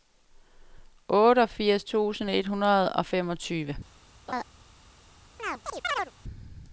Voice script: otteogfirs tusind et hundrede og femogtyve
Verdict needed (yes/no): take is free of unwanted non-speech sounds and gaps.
no